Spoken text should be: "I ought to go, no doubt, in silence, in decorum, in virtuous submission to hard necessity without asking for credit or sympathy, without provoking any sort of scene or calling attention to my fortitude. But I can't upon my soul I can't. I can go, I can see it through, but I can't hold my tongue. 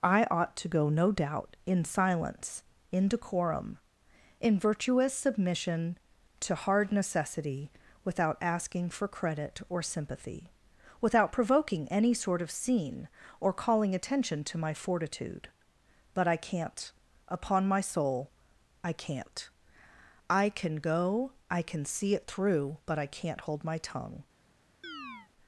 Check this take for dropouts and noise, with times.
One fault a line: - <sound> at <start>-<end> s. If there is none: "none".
- chirp at 24.8-25.3 s